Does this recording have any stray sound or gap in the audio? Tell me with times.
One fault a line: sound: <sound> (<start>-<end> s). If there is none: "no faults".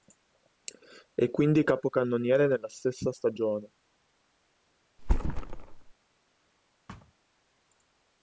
sound: thud (5.0-5.9 s)
sound: thud (6.9-7.1 s)